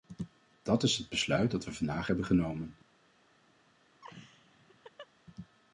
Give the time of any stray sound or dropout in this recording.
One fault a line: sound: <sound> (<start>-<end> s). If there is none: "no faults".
sound: laugh (4.0-5.1 s)